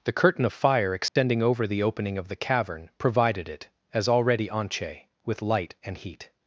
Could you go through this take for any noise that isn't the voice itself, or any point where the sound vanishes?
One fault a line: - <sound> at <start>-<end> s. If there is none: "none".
- dropout at 1.1-1.2 s